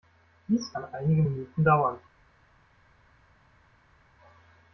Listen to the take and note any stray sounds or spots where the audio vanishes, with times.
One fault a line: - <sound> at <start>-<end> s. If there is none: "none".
none